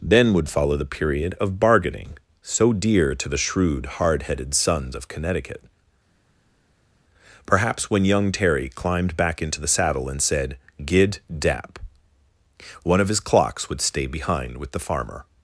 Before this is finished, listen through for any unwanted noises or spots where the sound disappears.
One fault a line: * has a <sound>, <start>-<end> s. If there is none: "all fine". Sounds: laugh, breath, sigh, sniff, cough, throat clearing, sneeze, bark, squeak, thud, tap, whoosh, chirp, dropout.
all fine